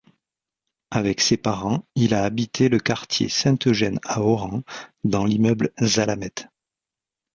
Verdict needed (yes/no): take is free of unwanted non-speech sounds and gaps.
yes